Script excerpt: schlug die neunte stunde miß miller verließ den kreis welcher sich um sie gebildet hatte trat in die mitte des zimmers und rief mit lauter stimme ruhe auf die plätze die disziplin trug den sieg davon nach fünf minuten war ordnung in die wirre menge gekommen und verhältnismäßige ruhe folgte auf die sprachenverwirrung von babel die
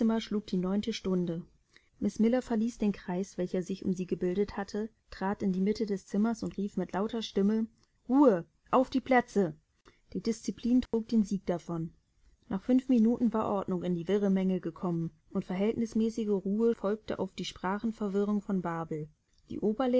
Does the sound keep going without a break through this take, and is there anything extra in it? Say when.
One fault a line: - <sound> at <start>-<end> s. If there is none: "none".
- dropout at 10.9-10.9 s